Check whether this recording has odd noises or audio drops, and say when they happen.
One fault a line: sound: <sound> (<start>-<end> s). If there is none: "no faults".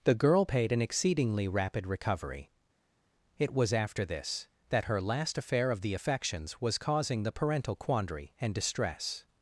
no faults